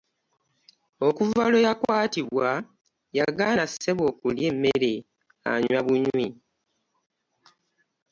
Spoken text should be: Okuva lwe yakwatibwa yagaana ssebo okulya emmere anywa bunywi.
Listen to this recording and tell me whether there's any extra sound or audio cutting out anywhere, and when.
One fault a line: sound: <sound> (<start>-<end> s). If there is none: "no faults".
no faults